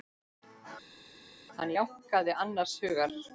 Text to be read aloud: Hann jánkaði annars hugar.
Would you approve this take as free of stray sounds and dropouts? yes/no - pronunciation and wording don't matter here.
yes